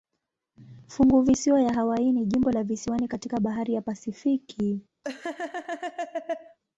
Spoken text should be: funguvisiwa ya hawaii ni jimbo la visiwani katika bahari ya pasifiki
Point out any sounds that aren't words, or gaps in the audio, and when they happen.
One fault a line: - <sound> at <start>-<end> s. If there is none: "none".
- laugh at 5.0-6.6 s